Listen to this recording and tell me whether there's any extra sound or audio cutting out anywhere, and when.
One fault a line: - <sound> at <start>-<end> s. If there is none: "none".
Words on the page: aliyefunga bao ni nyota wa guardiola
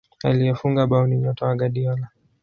none